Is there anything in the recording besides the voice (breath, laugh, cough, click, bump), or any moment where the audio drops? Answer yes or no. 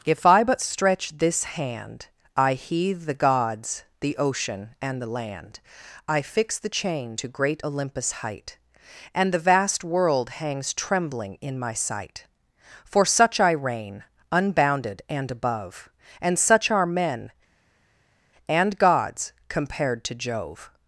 no